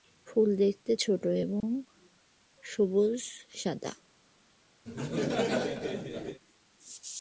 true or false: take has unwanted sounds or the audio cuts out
true